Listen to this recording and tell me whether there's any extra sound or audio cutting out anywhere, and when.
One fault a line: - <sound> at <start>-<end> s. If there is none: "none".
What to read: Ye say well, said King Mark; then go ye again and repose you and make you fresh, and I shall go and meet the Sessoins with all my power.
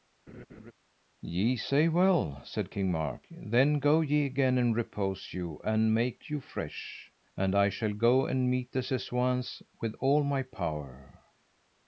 - laugh at 0.3-0.7 s